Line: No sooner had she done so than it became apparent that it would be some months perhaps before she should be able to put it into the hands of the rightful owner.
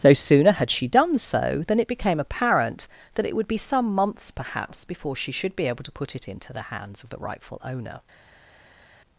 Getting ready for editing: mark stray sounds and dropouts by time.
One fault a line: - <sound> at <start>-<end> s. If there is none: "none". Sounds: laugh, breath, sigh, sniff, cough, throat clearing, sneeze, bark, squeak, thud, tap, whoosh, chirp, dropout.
none